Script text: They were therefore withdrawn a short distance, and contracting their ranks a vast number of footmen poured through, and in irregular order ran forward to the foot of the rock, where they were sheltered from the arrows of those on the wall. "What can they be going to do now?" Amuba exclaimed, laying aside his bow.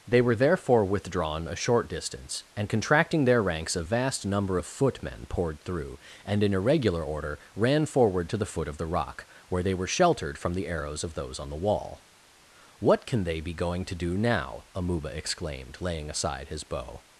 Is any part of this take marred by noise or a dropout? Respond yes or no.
no